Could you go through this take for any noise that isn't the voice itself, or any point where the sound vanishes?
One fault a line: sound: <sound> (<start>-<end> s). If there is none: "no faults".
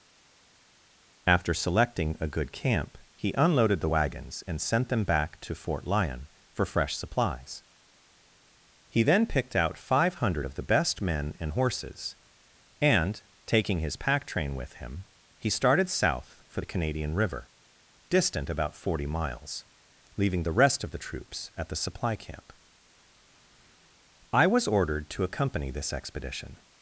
no faults